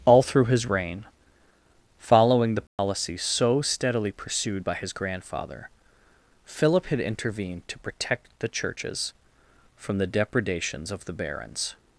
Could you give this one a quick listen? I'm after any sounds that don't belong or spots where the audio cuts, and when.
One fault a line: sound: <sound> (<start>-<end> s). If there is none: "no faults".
sound: dropout (2.7-2.8 s)